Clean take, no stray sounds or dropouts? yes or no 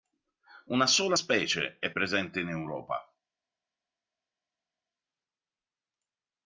yes